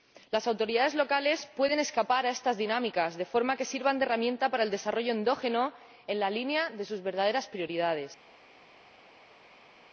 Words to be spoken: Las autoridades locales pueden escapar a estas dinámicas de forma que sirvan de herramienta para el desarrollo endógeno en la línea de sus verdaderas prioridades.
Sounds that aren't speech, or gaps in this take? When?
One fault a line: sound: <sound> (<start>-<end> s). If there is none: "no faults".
no faults